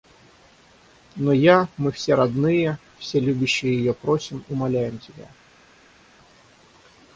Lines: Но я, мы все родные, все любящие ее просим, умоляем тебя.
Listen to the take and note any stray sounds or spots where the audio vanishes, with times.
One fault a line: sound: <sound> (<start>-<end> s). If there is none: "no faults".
no faults